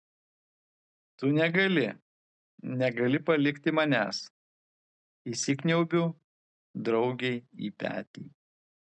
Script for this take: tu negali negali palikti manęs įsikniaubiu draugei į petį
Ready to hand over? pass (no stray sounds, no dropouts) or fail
pass